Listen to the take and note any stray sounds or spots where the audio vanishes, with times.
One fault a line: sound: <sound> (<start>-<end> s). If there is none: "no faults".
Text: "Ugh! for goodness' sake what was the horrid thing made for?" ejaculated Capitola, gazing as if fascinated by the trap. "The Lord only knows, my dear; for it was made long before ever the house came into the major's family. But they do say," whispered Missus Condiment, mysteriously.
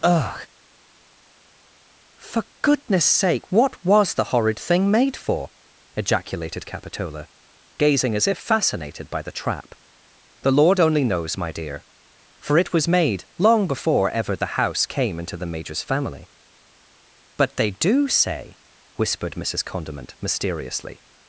no faults